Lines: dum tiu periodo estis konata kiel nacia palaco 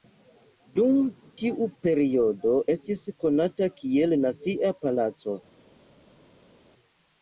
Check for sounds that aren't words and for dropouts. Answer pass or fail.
pass